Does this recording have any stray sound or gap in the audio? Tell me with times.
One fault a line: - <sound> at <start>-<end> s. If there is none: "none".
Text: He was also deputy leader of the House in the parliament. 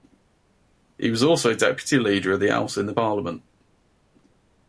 none